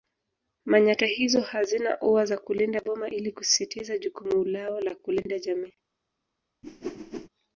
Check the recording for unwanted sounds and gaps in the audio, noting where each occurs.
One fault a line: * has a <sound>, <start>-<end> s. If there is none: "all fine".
* has a whoosh, 6.6-7.3 s